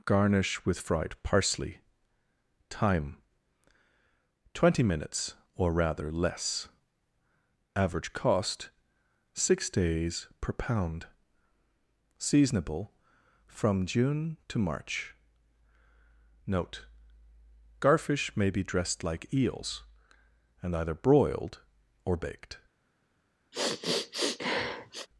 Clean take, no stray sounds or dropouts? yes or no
no